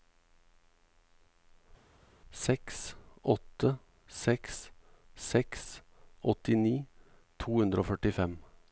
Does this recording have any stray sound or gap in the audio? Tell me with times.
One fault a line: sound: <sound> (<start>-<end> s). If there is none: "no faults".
no faults